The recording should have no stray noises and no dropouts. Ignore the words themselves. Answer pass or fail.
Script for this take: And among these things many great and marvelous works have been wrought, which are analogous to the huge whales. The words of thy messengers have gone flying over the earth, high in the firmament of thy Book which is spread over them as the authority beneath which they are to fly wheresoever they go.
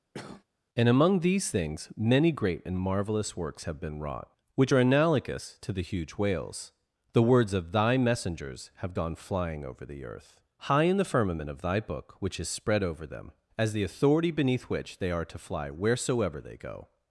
fail